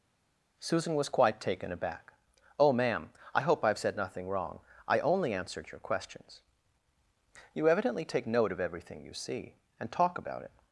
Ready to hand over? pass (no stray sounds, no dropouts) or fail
pass